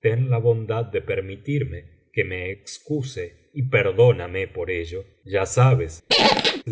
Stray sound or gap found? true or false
true